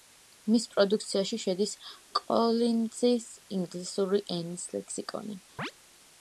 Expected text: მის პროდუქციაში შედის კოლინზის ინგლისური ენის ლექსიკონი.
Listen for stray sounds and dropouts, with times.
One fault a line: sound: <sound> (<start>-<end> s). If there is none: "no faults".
sound: chirp (5.6-5.7 s)